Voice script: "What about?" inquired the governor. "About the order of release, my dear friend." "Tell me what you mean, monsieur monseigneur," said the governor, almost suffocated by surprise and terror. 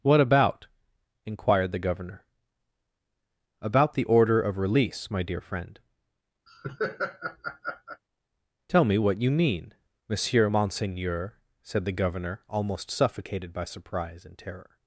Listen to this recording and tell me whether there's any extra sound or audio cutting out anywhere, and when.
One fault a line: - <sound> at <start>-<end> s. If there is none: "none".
- laugh at 6.5-8.0 s